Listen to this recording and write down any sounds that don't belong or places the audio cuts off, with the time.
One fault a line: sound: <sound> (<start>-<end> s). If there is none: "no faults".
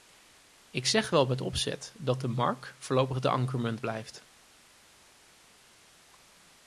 no faults